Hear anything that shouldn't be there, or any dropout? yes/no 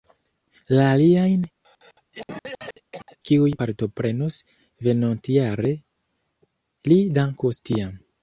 yes